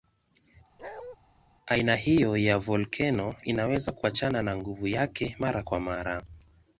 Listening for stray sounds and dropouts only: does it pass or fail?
fail